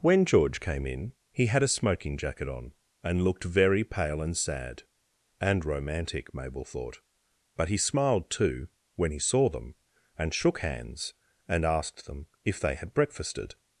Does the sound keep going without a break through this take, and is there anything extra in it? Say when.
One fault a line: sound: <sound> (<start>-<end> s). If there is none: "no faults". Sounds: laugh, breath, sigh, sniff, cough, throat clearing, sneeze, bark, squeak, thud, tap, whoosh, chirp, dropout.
no faults